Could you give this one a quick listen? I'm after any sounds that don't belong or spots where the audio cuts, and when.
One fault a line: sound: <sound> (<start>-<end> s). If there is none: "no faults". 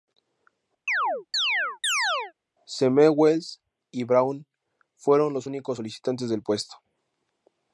sound: chirp (0.9-2.3 s)